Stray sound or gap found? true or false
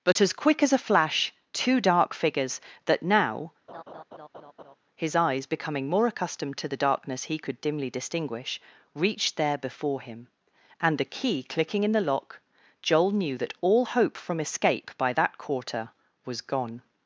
true